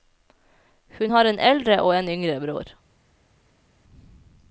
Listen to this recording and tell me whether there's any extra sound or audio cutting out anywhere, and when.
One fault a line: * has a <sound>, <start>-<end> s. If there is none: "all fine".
all fine